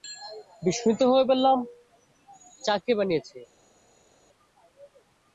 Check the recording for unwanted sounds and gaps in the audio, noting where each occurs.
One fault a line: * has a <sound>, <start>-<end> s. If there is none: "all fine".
all fine